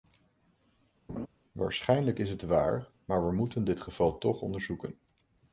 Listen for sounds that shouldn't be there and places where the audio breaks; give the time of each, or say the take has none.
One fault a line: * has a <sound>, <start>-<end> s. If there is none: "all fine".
* has a laugh, 1.1-1.3 s